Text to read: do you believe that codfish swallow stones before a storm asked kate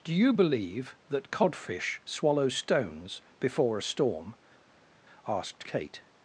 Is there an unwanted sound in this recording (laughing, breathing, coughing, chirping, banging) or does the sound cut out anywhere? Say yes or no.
no